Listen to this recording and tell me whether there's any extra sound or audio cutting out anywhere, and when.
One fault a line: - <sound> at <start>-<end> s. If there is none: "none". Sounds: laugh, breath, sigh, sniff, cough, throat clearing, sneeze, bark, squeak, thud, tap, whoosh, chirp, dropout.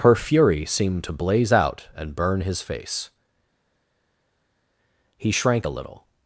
none